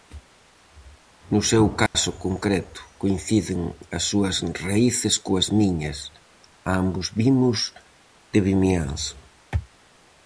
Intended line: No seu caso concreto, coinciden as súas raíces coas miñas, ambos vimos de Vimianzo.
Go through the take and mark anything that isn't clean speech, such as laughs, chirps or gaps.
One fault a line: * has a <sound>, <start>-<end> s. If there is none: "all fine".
* has a dropout, 1.9-1.9 s